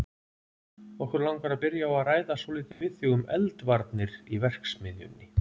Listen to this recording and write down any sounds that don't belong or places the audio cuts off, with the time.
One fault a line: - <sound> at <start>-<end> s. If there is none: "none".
- dropout at 2.7-2.8 s